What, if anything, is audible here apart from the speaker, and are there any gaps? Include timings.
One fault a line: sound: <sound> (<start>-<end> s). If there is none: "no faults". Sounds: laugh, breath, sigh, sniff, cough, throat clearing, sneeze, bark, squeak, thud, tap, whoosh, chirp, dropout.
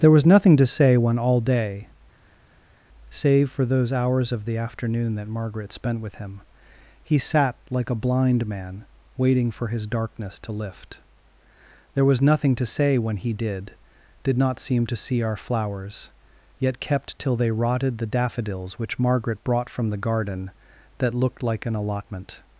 no faults